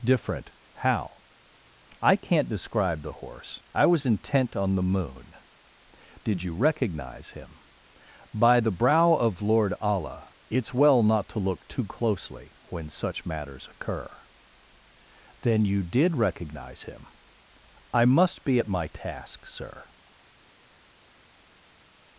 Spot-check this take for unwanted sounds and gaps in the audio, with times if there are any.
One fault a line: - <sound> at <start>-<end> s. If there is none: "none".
none